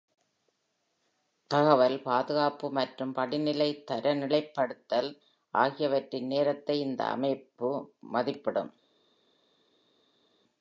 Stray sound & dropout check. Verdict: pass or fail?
pass